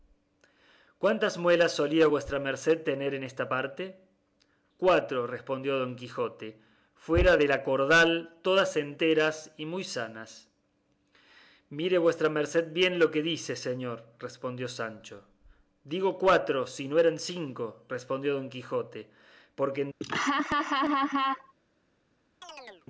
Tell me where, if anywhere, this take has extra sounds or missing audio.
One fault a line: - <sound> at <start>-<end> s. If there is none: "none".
- laugh at 20.0-21.5 s
- chirp at 22.4-22.9 s